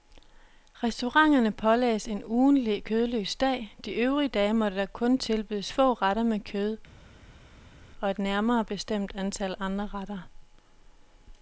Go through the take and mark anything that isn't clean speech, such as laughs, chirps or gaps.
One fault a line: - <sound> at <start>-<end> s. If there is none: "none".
none